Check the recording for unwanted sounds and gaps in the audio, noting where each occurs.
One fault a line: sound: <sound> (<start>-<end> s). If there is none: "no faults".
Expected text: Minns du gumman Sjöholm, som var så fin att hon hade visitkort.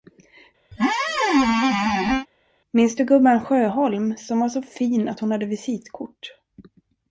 sound: squeak (0.7-2.3 s)